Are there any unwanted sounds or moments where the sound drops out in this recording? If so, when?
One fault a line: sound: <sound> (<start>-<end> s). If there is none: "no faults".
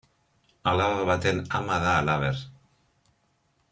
no faults